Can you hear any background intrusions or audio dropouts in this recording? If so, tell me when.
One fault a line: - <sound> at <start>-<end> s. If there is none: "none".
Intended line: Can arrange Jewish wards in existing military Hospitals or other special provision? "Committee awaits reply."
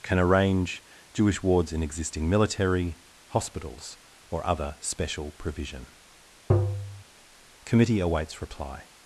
- tap at 6.5-7.0 s